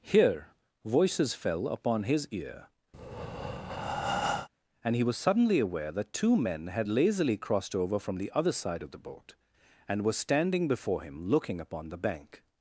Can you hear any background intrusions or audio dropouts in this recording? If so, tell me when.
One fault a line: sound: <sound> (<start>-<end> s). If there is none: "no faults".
sound: breath (2.9-4.5 s)